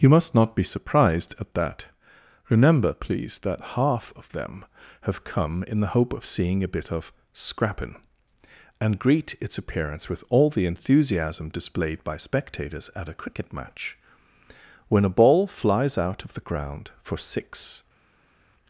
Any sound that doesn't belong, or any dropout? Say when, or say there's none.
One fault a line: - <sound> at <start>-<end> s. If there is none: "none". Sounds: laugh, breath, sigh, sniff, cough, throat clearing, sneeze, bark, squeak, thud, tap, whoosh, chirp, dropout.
none